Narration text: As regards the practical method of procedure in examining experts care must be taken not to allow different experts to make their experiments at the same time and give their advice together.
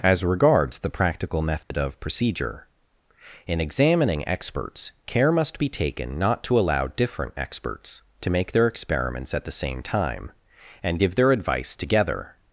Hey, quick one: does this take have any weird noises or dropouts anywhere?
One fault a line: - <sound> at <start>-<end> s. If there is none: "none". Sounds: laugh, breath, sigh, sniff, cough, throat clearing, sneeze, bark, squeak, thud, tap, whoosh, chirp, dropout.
- dropout at 1.6-1.7 s